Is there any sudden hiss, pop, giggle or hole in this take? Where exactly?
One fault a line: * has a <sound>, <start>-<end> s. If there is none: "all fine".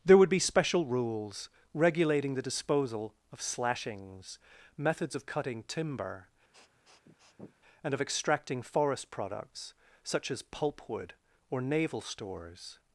* has a sniff, 6.5-7.6 s